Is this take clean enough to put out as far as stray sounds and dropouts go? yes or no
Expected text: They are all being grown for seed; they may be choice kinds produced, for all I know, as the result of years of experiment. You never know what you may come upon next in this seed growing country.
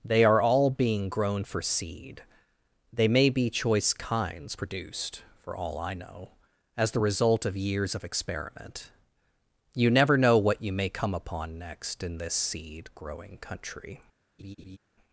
no